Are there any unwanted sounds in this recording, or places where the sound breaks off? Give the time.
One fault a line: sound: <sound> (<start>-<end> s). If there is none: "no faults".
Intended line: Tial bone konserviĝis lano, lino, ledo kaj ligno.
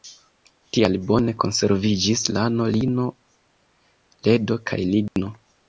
sound: dropout (5.1-5.2 s)